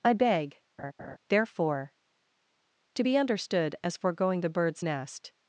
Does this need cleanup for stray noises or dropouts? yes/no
yes